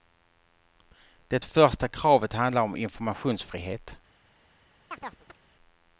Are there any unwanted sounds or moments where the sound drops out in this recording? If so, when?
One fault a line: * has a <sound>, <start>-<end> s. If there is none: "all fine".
* has a chirp, 4.9-5.4 s